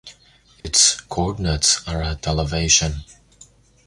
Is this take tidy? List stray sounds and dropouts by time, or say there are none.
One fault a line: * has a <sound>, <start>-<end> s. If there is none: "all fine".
* has a dropout, 0.6-0.6 s